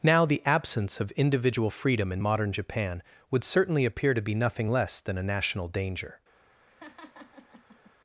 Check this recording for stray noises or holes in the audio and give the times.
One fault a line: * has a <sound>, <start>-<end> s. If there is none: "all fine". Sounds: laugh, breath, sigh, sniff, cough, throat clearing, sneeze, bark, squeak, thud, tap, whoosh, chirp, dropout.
* has a laugh, 6.6-7.9 s